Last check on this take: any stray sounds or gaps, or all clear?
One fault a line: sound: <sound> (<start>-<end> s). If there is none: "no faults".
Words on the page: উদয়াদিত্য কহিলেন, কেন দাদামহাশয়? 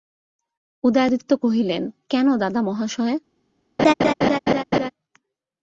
sound: laugh (3.8-4.9 s)